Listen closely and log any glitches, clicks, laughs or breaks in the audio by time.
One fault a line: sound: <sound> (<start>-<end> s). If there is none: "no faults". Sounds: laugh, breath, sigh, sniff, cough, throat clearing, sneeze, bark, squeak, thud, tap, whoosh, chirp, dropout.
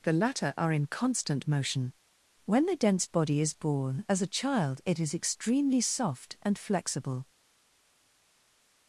no faults